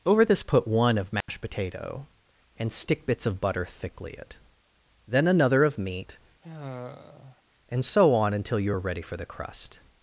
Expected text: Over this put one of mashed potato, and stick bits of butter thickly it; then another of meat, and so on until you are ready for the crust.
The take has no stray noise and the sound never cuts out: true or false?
false